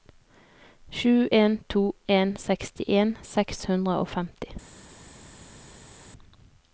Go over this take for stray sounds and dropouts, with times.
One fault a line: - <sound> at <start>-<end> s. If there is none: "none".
none